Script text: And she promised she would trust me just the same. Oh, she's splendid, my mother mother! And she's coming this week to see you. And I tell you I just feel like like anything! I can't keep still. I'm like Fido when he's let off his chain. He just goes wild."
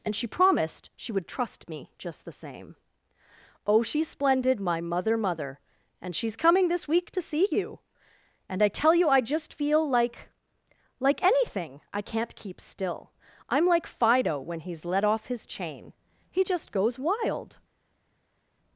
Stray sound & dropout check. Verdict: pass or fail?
pass